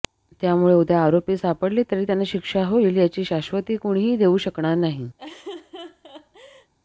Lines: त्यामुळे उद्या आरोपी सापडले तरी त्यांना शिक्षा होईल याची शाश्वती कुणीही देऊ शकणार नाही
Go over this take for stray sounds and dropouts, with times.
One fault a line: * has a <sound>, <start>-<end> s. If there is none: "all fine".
* has a laugh, 5.2-6.7 s